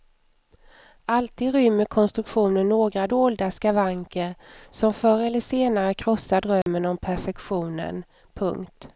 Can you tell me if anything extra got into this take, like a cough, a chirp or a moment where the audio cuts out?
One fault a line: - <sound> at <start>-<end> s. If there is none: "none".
- dropout at 6.6-6.7 s